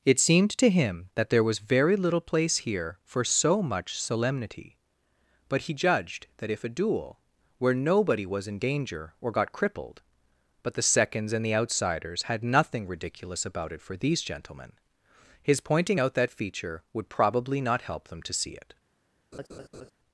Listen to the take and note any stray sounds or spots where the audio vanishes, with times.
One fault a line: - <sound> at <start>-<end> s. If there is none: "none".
- laugh at 19.3-19.9 s